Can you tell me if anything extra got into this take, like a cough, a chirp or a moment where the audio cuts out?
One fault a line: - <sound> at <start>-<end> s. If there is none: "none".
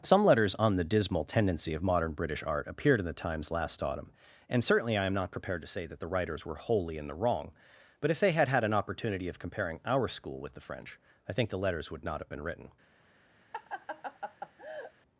- laugh at 13.5-14.9 s